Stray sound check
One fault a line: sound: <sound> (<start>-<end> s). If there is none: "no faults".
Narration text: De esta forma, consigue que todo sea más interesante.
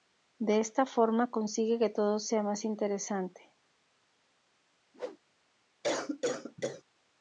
sound: whoosh (4.9-5.2 s)
sound: cough (5.8-6.8 s)